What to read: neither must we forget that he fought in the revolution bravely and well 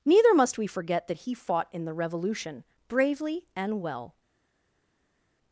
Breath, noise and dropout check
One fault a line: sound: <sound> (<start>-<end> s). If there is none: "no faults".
no faults